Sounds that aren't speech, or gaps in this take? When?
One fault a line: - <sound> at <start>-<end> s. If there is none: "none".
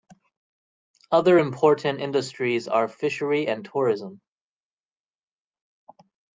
none